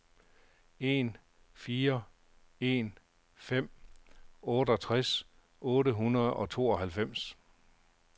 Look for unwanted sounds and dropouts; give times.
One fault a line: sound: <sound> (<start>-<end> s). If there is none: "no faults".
no faults